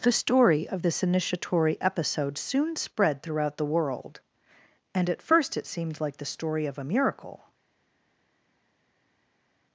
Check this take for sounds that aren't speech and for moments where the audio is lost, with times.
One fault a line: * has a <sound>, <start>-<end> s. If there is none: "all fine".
all fine